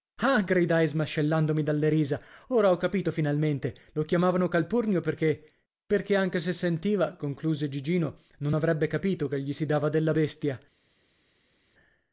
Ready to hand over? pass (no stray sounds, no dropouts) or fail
pass